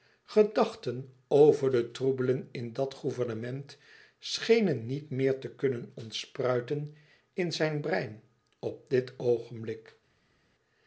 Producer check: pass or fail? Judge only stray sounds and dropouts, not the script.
pass